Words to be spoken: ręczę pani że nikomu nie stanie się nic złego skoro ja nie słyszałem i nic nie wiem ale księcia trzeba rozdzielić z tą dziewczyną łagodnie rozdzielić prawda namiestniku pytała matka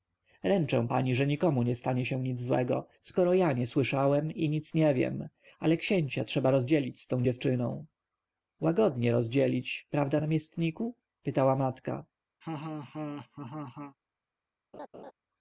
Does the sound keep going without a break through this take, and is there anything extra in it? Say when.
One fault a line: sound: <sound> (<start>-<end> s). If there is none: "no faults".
sound: laugh (12.4-14.0 s)
sound: laugh (14.7-15.1 s)